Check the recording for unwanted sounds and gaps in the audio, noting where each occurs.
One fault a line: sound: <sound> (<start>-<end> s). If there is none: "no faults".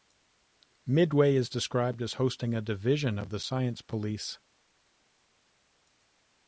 no faults